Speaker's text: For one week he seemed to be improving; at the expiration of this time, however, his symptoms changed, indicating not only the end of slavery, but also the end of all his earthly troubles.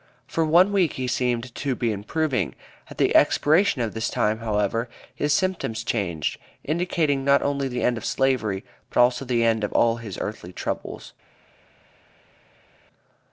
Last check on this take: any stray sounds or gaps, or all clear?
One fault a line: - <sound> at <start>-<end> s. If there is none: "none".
none